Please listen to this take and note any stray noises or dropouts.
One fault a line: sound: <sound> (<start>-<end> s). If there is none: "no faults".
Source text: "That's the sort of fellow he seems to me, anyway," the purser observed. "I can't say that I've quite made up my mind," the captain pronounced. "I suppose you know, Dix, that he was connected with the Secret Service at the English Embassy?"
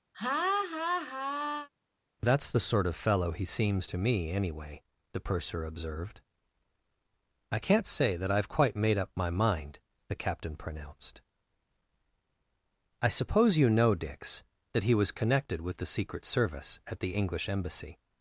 sound: laugh (0.1-1.7 s)